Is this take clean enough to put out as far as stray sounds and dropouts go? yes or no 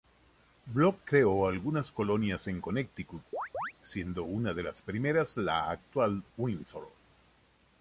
no